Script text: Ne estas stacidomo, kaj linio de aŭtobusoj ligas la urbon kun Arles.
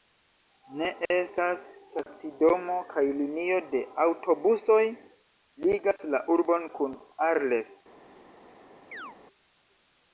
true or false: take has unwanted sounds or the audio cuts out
true